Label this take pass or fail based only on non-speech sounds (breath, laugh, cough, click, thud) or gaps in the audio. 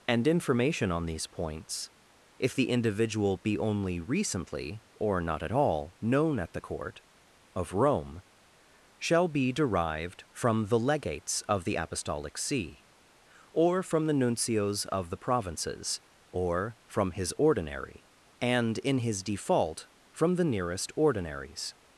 pass